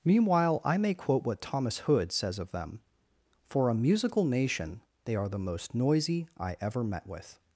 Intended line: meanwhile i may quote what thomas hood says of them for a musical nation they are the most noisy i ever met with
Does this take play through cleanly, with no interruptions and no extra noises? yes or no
yes